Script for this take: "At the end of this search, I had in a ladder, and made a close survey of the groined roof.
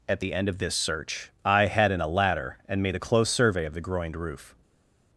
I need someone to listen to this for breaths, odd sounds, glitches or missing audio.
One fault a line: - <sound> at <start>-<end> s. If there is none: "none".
none